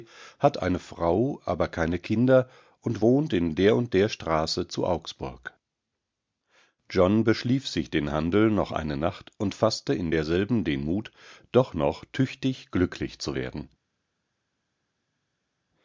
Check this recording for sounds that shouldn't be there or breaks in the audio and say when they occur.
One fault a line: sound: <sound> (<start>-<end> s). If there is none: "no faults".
no faults